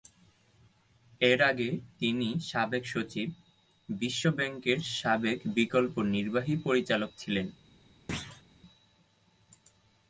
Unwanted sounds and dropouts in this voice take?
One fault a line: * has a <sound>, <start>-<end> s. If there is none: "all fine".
* has a thud, 8.1-8.4 s